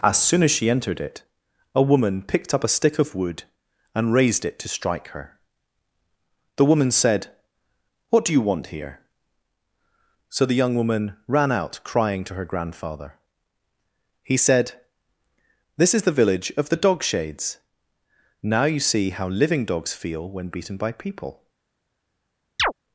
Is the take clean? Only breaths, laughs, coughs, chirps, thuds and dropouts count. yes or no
no